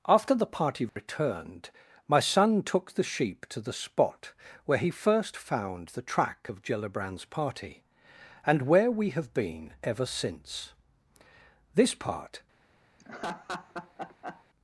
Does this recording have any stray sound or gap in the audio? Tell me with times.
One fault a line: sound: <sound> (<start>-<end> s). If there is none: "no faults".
sound: dropout (0.9-1.0 s)
sound: laugh (13.0-14.4 s)